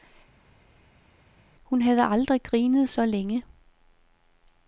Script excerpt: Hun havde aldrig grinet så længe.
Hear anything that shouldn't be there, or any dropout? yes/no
no